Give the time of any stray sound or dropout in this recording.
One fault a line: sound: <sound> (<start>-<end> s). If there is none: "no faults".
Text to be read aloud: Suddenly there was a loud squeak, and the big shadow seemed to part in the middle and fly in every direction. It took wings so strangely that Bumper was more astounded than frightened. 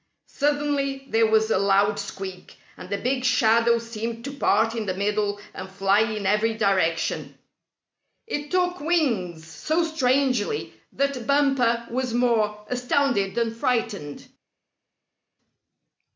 no faults